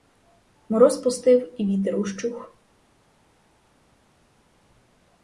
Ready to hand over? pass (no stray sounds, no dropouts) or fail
pass